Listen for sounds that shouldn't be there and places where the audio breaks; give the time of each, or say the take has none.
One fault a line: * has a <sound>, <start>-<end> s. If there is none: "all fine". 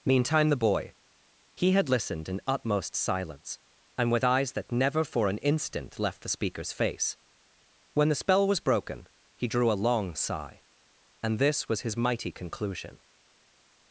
all fine